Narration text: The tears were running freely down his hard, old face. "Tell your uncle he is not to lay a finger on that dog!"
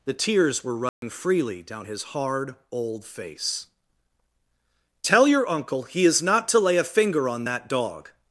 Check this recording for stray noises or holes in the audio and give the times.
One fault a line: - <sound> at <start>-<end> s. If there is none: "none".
- dropout at 0.9-1.0 s